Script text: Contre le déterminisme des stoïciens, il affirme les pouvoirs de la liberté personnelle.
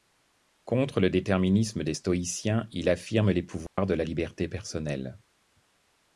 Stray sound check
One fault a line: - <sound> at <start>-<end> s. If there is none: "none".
- dropout at 3.7-3.8 s